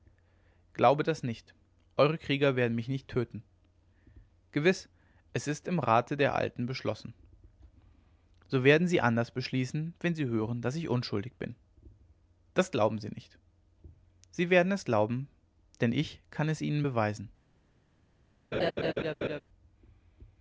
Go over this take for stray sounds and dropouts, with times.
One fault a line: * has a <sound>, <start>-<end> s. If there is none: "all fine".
* has a laugh, 18.5-19.4 s